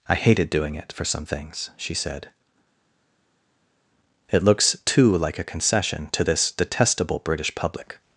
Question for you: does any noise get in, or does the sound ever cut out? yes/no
no